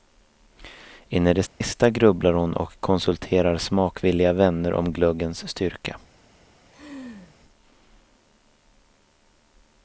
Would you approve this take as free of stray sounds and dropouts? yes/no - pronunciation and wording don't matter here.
no